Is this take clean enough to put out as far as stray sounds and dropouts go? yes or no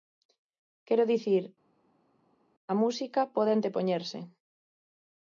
yes